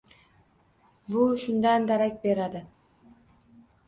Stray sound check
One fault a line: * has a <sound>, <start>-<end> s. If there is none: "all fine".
all fine